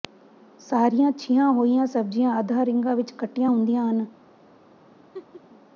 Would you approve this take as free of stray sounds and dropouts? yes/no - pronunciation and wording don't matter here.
no